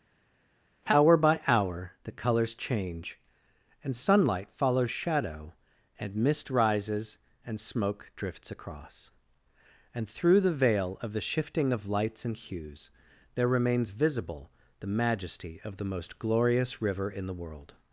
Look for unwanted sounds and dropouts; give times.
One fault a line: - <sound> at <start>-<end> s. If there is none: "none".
none